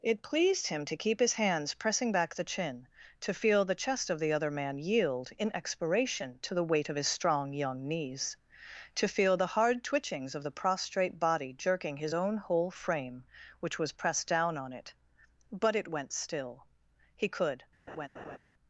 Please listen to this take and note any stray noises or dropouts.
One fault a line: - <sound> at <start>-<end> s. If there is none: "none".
- laugh at 17.9-18.4 s